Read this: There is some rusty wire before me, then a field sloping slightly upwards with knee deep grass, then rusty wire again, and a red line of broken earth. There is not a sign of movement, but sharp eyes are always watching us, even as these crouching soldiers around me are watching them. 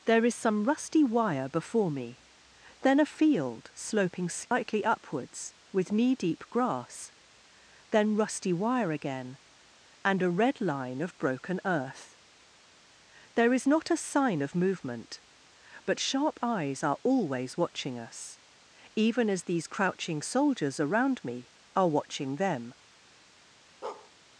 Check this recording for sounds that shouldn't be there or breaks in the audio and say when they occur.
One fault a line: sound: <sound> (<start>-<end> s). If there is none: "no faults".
sound: dropout (4.5-4.5 s)
sound: bark (23.8-24.1 s)